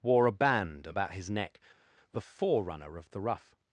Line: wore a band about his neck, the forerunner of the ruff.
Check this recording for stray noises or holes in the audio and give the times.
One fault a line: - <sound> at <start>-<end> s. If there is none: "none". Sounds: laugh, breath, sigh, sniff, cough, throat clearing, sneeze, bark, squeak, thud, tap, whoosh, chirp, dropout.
none